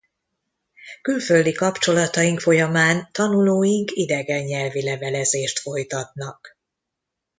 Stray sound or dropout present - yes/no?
no